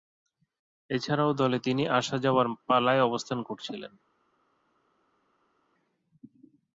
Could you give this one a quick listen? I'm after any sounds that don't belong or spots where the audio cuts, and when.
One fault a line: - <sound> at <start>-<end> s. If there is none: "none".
none